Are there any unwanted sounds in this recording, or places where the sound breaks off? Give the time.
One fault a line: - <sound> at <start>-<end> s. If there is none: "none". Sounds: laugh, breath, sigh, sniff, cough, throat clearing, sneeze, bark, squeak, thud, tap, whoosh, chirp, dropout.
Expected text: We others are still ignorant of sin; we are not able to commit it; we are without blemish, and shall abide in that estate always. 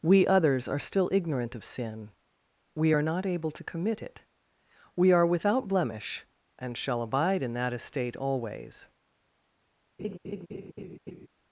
- laugh at 10.0-11.3 s